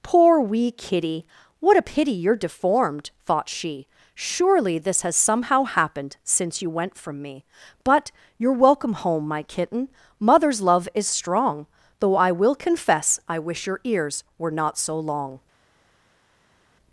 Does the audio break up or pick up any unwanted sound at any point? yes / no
no